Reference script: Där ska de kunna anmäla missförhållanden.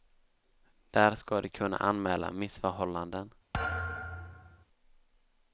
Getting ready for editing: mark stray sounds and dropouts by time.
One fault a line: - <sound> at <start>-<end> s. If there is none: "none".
- thud at 3.5-4.7 s